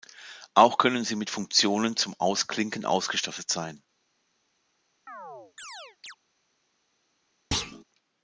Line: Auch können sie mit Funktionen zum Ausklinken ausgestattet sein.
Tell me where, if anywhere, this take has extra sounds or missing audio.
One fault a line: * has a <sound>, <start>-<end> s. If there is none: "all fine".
* has a chirp, 5.1-6.2 s
* has a thud, 7.5-7.8 s